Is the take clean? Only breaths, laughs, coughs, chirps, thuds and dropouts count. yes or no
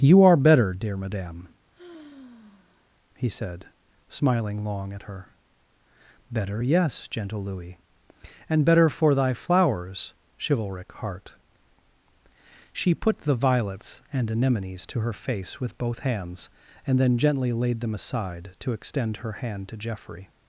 no